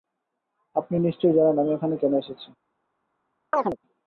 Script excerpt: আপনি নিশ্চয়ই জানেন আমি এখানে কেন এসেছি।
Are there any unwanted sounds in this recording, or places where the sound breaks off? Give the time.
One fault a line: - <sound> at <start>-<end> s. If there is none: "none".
- chirp at 3.5-3.8 s